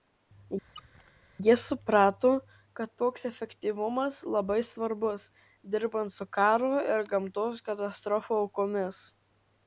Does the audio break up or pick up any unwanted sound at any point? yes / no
yes